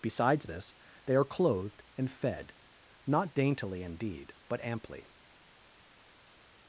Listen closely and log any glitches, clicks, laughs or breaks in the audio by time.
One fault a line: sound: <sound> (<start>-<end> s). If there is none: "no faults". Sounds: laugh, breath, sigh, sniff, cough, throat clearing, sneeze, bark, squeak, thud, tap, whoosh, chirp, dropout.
no faults